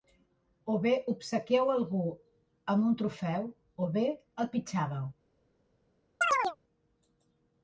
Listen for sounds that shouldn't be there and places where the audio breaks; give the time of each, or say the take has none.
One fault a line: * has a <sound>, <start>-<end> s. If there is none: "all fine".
* has a chirp, 6.2-6.6 s